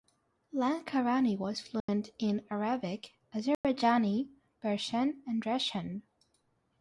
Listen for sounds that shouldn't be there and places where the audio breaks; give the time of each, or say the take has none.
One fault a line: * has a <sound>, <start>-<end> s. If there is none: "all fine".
* has a dropout, 1.8-1.9 s
* has a dropout, 3.5-3.6 s